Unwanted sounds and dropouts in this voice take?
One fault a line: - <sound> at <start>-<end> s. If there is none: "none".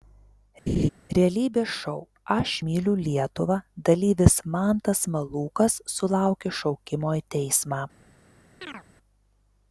- laugh at 0.7-0.9 s
- chirp at 8.6-8.8 s